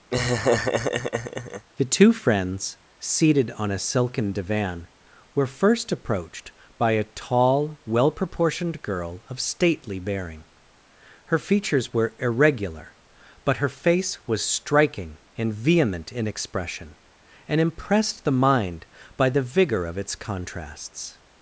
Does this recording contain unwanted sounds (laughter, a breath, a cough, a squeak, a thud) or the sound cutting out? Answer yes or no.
yes